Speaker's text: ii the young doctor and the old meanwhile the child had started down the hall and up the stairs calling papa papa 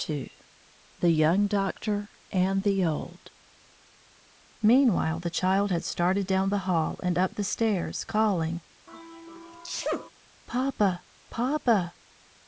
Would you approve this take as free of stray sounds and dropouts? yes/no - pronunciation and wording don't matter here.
no